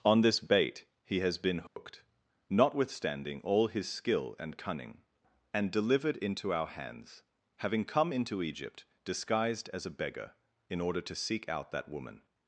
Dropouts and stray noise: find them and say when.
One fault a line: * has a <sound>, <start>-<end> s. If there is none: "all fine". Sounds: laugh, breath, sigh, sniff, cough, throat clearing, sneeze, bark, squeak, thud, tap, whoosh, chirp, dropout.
* has a dropout, 1.7-1.8 s